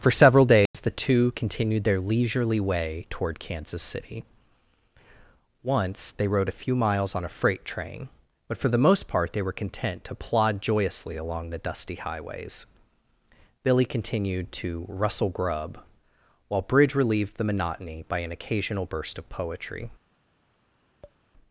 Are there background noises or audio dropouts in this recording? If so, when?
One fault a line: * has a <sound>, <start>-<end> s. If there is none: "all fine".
* has a dropout, 0.7-0.7 s
* has a tap, 21.0-21.2 s